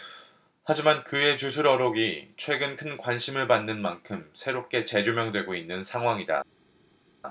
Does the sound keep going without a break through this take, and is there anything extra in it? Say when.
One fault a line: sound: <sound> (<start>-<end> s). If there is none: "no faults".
no faults